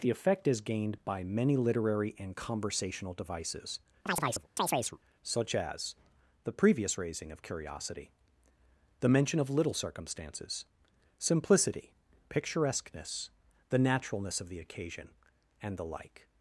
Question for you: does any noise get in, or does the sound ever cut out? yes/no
yes